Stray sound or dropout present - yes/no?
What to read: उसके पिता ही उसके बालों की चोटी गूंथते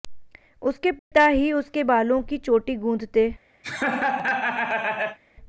yes